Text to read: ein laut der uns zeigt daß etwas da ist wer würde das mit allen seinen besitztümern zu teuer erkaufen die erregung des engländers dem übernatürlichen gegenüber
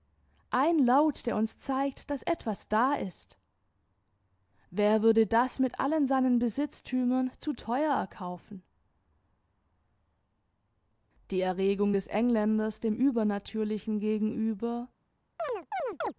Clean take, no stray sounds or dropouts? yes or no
no